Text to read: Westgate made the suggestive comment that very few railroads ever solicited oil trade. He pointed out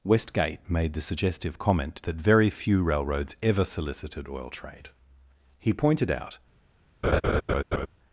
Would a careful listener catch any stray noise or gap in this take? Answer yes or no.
yes